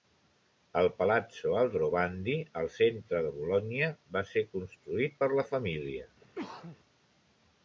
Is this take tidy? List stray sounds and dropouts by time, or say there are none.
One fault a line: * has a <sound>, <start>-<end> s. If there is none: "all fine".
* has a sneeze, 6.2-6.8 s